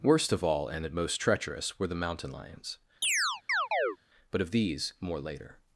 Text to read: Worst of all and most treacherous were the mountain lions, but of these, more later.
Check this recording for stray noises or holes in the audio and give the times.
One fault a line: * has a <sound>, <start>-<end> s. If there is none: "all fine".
* has a chirp, 3.0-4.0 s